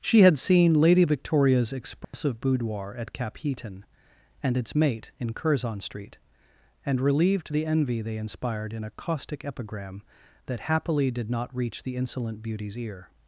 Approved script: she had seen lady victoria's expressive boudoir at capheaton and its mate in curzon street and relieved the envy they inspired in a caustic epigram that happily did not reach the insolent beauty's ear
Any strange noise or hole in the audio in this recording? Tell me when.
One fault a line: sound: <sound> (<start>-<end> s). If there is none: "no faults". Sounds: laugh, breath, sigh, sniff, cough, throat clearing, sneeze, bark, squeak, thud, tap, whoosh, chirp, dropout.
sound: dropout (2.0-2.1 s)